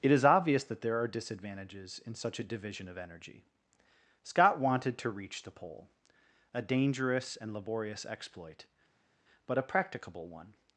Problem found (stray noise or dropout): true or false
false